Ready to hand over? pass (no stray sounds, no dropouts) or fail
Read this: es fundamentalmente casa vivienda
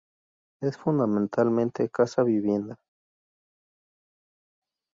pass